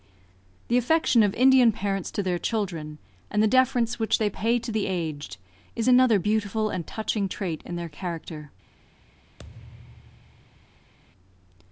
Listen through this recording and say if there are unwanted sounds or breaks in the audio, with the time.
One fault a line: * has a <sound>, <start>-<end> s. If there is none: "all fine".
* has a thud, 9.4-10.9 s